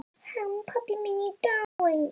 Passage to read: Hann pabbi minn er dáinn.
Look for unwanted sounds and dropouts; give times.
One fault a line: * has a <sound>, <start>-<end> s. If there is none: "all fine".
* has a dropout, 1.6-1.8 s